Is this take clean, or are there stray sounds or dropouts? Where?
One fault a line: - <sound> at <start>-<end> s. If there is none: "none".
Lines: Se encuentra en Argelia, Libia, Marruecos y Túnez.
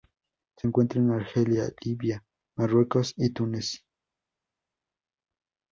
none